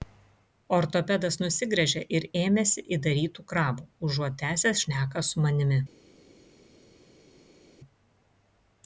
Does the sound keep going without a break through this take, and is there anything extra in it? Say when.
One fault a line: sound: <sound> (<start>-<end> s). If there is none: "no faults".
no faults